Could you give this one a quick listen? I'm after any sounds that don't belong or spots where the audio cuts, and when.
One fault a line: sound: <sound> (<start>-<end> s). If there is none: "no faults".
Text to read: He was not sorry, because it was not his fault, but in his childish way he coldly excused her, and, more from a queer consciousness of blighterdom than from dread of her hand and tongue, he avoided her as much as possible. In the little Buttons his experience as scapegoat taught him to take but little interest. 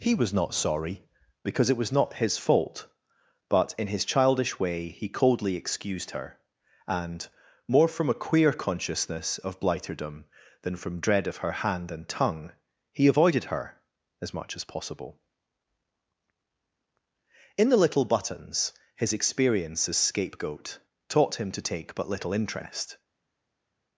no faults